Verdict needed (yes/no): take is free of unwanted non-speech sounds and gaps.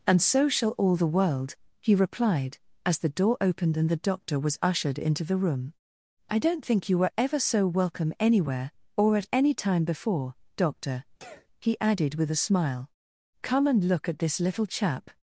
no